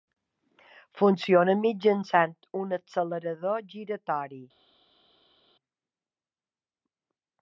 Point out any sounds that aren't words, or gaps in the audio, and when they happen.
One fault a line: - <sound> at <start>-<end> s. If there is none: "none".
none